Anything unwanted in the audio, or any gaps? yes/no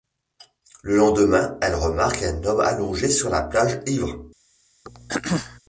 yes